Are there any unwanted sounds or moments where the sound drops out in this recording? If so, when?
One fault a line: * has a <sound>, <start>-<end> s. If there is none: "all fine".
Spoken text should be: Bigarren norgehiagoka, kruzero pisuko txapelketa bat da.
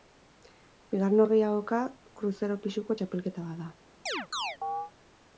* has a chirp, 4.1-4.9 s